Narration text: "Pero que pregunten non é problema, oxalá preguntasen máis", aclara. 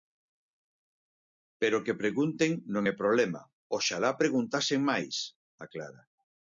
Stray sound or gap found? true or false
false